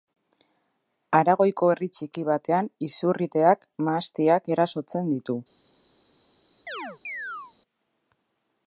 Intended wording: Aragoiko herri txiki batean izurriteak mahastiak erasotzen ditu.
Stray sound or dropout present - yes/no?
yes